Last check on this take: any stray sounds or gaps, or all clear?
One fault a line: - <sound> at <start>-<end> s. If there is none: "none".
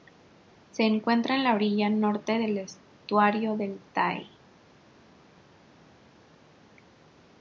none